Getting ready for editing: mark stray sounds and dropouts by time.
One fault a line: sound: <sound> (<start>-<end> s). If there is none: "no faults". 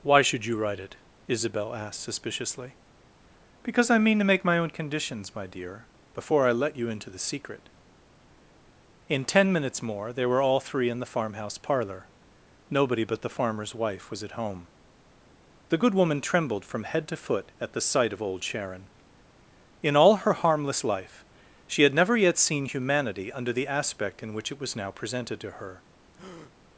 sound: breath (26.1-26.5 s)